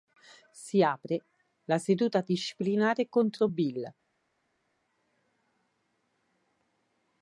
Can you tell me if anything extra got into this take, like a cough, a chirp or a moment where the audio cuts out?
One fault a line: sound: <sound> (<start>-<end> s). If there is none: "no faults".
no faults